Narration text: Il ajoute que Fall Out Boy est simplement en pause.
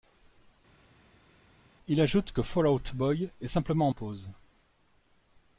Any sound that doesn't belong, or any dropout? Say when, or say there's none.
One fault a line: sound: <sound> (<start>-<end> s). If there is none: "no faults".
no faults